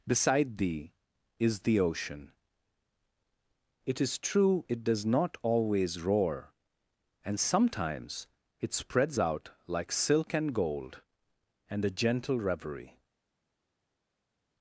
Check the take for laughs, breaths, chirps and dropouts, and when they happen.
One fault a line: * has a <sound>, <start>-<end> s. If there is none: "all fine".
all fine